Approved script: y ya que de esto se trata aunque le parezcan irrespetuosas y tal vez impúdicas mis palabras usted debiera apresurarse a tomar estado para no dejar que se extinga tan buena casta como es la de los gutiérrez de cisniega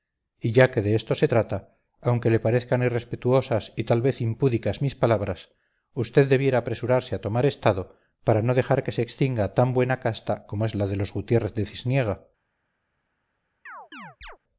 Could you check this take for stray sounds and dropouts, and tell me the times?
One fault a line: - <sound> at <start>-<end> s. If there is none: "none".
- chirp at 13.7-14.4 s